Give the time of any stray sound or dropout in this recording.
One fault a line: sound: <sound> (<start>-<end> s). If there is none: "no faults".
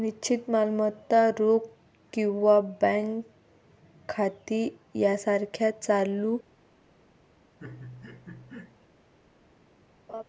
sound: laugh (7.6-8.9 s)
sound: laugh (10.1-10.2 s)